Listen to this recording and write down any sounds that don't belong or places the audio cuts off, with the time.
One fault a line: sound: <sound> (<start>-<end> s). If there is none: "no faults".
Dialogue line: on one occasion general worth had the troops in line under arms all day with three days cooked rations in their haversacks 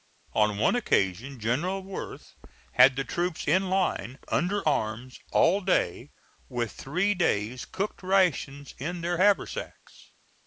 no faults